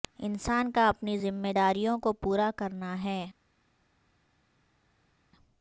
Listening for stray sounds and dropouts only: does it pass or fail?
pass